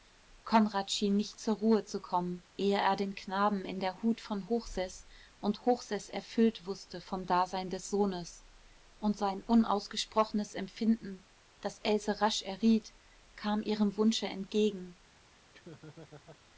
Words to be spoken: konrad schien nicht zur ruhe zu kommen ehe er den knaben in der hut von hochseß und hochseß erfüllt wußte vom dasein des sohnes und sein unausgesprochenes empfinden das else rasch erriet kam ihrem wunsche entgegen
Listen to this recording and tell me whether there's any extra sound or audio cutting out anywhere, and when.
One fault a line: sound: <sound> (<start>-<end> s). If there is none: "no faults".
sound: laugh (15.5-16.4 s)